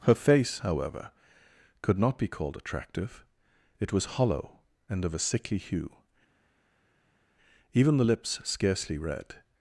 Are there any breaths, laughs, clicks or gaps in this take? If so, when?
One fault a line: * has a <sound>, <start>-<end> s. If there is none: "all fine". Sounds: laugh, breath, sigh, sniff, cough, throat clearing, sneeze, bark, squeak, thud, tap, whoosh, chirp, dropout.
all fine